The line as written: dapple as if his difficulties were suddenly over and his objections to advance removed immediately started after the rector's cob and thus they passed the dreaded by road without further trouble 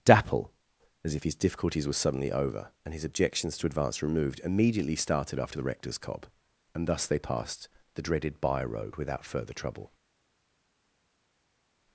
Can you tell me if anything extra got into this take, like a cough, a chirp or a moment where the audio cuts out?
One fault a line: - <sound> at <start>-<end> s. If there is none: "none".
none